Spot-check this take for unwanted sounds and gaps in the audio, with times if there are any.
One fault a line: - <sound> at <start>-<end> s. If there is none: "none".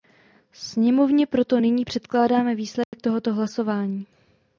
- dropout at 2.8-2.9 s